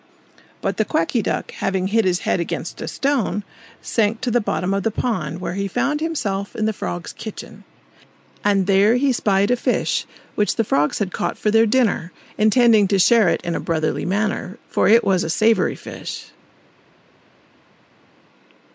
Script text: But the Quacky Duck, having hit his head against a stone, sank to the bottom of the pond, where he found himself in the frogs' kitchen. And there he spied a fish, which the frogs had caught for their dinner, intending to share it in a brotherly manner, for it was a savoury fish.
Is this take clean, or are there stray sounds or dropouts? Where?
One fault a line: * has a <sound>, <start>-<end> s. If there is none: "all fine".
all fine